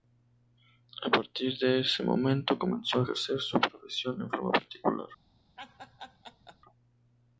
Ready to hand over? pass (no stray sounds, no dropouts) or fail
fail